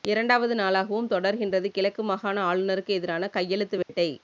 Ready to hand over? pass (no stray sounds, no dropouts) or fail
fail